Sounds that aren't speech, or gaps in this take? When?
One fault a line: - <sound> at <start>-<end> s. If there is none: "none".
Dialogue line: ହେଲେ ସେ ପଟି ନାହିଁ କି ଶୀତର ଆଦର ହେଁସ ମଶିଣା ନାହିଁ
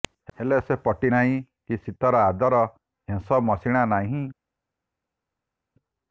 none